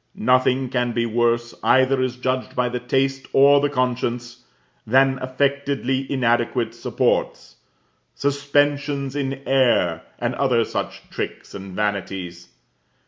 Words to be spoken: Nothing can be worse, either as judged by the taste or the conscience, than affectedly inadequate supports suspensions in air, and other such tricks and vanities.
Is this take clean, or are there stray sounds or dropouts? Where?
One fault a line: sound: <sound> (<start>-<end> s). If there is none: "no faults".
no faults